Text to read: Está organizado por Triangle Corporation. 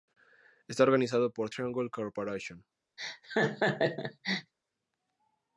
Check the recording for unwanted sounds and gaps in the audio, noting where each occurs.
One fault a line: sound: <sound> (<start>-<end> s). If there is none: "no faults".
sound: laugh (3.0-4.5 s)